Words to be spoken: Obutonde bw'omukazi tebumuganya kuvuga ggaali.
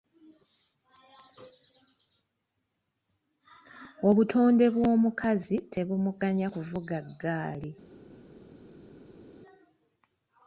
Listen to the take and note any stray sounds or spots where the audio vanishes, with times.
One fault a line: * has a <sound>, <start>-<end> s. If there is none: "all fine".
all fine